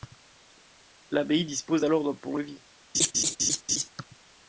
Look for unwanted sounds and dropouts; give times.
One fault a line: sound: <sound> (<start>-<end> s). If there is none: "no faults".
sound: laugh (2.9-3.9 s)